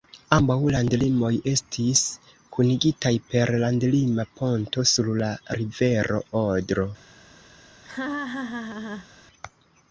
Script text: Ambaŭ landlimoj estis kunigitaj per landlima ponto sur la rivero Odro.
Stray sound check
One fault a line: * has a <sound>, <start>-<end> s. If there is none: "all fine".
* has a laugh, 7.8-9.1 s